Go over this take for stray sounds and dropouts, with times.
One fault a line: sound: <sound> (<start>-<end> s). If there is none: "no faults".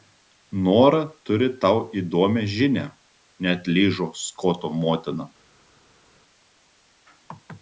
no faults